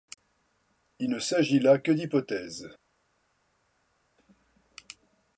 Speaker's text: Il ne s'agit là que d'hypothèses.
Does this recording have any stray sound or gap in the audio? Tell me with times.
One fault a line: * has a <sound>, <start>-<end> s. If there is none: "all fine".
all fine